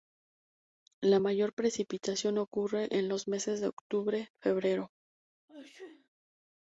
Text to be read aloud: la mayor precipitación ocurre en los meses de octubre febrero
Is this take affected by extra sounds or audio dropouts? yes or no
yes